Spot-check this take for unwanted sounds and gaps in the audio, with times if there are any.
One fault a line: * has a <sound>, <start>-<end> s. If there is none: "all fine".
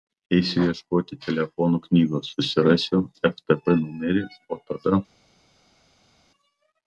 all fine